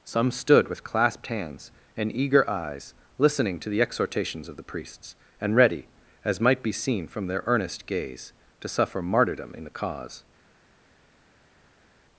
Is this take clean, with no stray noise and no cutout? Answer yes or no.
yes